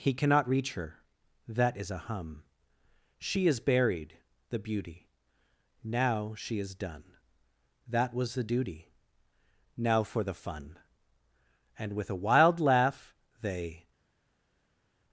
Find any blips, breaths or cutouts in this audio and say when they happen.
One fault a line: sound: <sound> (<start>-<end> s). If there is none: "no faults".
no faults